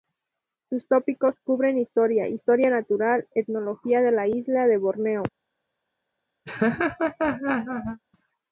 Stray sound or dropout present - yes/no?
yes